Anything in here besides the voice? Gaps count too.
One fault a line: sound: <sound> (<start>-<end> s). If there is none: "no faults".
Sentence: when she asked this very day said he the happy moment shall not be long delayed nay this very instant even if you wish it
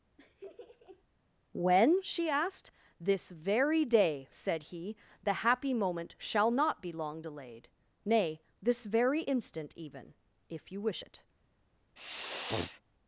sound: laugh (0.2-1.0 s)
sound: sniff (12.0-12.8 s)